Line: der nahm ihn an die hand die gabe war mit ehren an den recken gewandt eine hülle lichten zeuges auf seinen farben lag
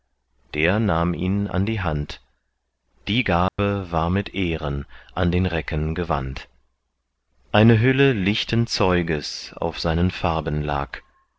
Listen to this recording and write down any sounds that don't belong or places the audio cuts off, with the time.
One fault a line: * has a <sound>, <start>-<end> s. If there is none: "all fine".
* has a dropout, 3.5-3.6 s